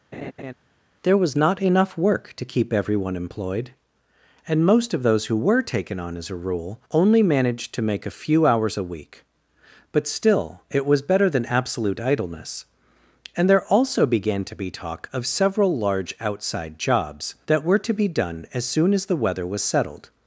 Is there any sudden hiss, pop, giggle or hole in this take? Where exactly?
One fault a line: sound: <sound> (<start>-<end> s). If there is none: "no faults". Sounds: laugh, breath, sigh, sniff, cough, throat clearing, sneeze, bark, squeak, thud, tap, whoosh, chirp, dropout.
sound: laugh (0.1-0.5 s)